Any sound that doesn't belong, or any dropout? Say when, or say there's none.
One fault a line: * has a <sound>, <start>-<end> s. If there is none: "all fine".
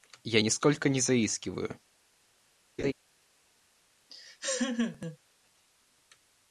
* has a laugh, 2.8-2.9 s
* has a laugh, 4.1-5.2 s